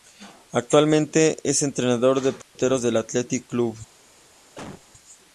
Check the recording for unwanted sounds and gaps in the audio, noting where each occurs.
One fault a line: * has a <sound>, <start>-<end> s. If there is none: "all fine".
* has a dropout, 2.4-2.6 s
* has a cough, 4.6-4.9 s